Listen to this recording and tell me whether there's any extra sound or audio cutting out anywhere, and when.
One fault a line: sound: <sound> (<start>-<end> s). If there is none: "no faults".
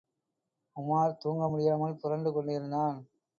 no faults